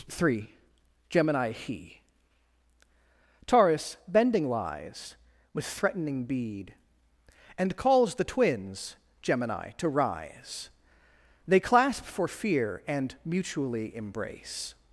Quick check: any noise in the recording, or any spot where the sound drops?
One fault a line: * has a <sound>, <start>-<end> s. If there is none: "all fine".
all fine